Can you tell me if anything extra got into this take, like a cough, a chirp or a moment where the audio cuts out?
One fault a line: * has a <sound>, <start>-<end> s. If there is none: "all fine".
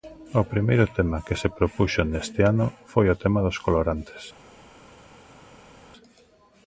all fine